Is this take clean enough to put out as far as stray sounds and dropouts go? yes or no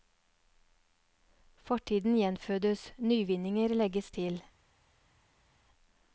yes